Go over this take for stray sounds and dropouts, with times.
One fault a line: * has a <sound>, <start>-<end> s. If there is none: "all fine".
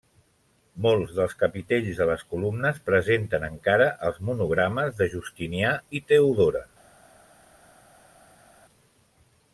all fine